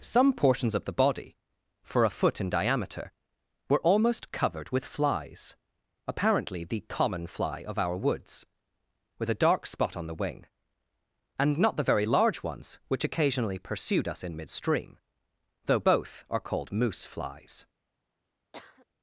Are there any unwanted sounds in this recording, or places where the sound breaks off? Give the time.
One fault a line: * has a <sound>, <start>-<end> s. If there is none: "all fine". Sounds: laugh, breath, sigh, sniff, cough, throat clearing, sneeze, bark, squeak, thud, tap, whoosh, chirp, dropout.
* has a cough, 18.5-18.9 s